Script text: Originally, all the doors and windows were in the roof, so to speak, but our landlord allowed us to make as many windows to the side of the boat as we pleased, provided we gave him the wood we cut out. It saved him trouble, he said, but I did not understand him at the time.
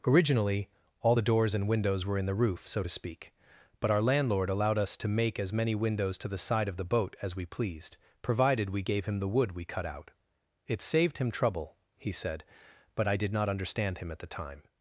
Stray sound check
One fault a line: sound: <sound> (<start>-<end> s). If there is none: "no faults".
no faults